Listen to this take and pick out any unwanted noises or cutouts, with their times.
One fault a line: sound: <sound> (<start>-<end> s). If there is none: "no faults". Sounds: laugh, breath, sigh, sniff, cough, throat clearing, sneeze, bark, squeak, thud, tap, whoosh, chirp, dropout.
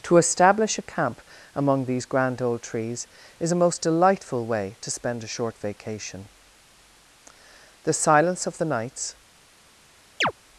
sound: chirp (10.2-10.3 s)